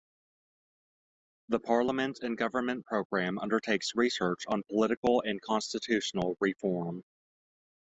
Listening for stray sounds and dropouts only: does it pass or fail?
pass